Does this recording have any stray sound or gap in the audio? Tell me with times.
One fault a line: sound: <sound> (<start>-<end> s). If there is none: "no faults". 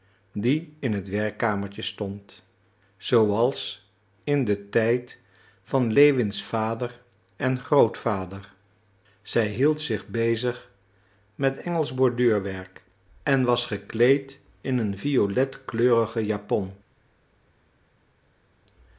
no faults